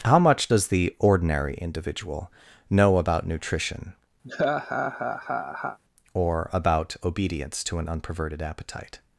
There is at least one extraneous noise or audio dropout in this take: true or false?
true